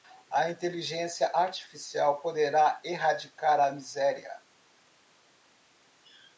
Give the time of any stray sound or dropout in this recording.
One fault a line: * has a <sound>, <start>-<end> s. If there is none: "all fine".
all fine